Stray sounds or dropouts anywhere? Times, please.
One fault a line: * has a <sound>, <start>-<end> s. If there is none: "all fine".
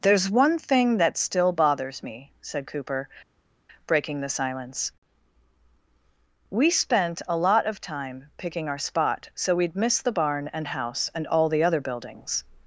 all fine